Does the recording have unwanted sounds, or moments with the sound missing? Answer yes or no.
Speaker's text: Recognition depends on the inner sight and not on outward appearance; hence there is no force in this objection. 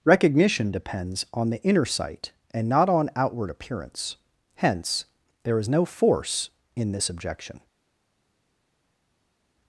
no